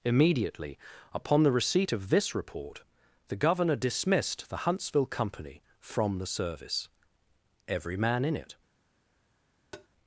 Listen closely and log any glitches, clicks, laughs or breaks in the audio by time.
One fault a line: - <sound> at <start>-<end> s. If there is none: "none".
- tap at 9.7-9.9 s